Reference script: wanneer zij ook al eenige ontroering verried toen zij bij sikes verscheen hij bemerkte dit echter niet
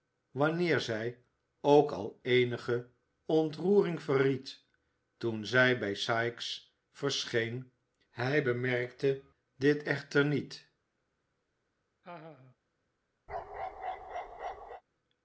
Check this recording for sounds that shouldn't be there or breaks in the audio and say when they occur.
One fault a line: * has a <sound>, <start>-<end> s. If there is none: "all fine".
* has a laugh, 12.0-12.6 s
* has a bark, 13.3-14.8 s